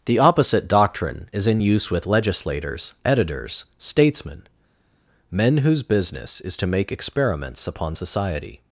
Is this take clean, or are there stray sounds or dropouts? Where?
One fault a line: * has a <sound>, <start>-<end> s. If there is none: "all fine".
all fine